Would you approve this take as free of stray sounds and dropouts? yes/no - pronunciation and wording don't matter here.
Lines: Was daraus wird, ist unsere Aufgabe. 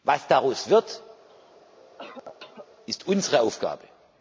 no